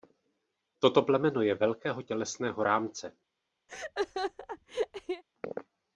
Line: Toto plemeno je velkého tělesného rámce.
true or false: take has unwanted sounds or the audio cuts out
true